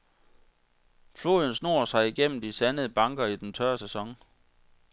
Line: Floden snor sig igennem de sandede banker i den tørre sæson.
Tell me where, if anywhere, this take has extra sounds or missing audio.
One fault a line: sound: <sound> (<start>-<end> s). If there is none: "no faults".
no faults